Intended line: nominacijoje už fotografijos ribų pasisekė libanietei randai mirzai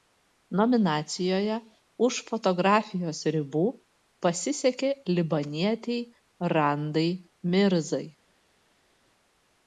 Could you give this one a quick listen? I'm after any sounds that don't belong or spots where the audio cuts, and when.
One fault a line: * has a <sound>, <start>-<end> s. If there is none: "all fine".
all fine